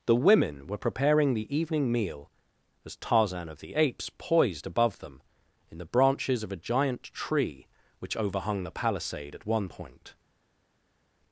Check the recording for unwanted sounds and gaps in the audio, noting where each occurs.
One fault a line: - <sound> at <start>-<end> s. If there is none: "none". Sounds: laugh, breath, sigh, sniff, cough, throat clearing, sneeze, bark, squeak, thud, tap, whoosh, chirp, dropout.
none